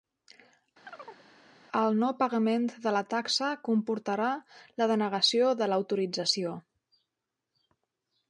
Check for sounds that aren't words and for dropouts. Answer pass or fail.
fail